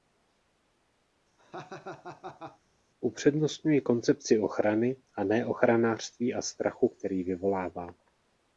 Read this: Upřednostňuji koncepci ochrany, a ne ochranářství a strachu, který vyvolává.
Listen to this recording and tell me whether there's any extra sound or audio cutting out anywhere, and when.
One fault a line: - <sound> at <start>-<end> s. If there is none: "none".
- laugh at 1.4-2.6 s